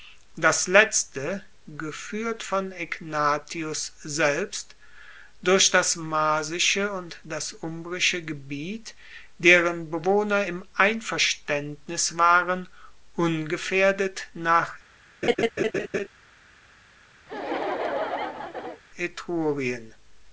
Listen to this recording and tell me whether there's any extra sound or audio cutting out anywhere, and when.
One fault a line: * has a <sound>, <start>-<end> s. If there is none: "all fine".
* has a laugh, 15.2-16.1 s
* has a laugh, 17.3-18.8 s